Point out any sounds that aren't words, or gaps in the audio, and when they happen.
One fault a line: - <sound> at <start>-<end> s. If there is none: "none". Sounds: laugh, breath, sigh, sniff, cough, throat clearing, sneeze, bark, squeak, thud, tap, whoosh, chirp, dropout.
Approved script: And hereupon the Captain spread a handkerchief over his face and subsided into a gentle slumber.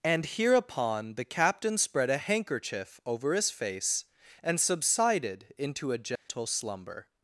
- dropout at 6.2-6.3 s